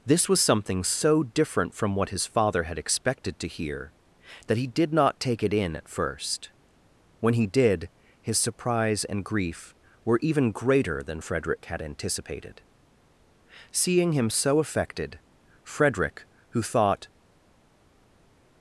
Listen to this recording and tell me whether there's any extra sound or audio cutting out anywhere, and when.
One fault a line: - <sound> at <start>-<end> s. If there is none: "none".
none